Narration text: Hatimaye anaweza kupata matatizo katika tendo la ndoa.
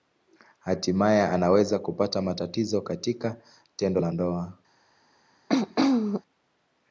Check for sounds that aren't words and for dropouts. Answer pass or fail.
fail